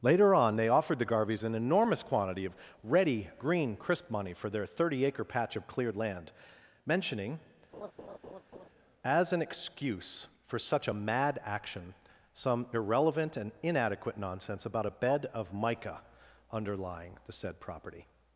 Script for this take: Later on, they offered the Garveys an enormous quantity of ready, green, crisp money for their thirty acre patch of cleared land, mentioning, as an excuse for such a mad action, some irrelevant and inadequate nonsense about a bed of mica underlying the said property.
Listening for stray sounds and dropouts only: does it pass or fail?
fail